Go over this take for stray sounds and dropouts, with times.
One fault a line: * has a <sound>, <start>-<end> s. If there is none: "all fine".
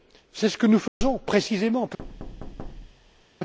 * has a dropout, 0.9-1.0 s
* has a thud, 2.0-3.3 s